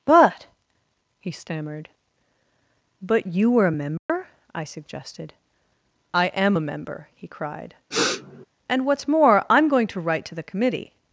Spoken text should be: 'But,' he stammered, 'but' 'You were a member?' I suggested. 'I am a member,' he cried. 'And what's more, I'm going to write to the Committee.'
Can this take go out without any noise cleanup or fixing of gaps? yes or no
no